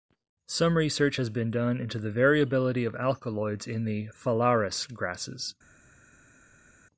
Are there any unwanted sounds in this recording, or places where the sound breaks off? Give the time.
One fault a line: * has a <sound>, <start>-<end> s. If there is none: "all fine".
all fine